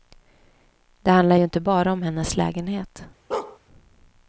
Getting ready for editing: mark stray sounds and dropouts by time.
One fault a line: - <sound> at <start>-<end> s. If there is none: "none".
- bark at 3.3-3.6 s